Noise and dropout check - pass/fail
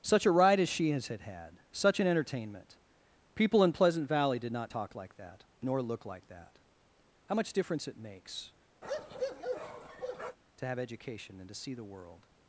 fail